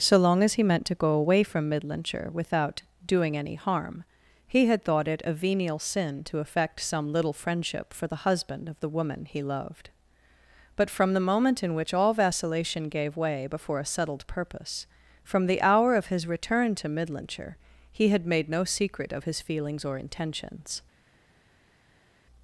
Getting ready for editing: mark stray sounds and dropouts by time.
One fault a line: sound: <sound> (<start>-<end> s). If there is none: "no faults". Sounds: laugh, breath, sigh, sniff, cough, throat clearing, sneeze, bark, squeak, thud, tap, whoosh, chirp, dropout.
no faults